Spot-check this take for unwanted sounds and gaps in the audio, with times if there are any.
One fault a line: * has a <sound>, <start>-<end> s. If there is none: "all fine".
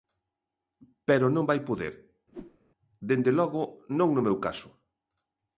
* has a whoosh, 2.3-2.6 s